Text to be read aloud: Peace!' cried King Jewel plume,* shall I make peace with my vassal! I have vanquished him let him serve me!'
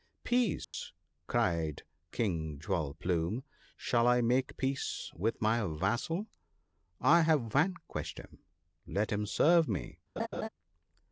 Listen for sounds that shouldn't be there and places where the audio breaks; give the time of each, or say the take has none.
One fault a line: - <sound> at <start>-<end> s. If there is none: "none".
- dropout at 0.6-0.7 s
- laugh at 10.2-10.5 s